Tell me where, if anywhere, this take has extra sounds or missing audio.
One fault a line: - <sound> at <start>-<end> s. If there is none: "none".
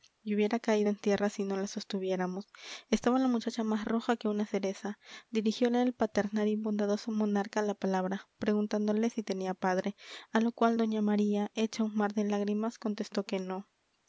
none